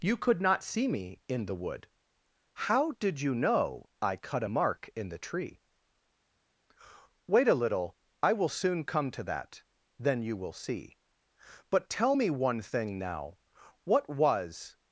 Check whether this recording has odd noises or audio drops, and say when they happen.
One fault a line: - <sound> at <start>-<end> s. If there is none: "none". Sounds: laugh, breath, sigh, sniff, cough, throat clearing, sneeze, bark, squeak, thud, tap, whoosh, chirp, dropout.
none